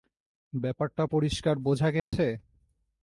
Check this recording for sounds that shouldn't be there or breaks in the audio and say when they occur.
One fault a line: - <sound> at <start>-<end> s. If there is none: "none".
- dropout at 2.0-2.1 s